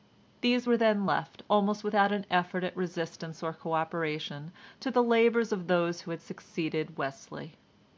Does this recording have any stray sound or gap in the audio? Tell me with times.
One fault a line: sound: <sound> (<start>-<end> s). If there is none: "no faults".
no faults